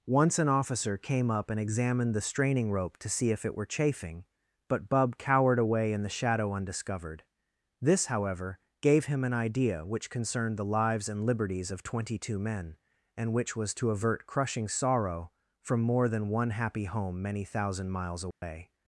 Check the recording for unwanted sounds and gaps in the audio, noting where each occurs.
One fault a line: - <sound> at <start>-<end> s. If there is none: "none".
- dropout at 18.3-18.4 s